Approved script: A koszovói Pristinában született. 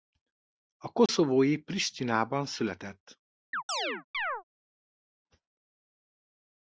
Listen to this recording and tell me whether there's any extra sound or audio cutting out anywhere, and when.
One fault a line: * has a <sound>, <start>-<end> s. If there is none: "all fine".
* has a dropout, 1.1-1.1 s
* has a chirp, 3.5-4.4 s